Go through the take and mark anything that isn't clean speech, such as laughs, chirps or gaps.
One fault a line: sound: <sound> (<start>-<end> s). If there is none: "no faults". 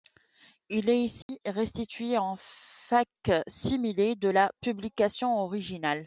sound: dropout (1.2-1.3 s)